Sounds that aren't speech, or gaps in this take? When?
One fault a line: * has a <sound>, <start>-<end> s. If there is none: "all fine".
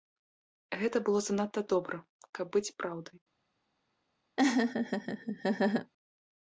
* has a laugh, 4.4-5.9 s